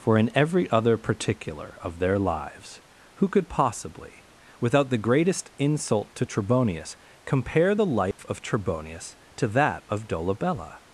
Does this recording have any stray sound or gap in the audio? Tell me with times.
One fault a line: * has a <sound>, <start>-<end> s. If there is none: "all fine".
* has a dropout, 8.1-8.2 s